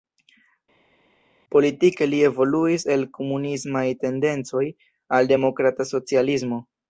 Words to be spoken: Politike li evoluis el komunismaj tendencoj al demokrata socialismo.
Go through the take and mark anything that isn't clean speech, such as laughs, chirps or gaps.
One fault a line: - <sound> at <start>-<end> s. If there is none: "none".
none